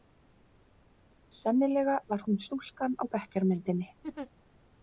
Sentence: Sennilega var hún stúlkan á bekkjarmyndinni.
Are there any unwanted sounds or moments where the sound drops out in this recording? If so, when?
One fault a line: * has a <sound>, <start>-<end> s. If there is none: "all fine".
* has a laugh, 4.0-4.3 s